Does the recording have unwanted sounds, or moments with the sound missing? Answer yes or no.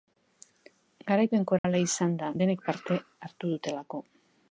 yes